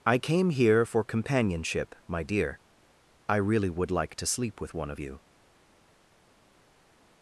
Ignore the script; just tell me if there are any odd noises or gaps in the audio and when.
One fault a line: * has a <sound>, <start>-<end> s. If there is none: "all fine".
all fine